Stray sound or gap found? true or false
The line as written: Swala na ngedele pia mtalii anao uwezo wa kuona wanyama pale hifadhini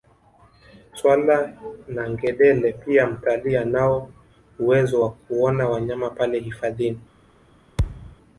true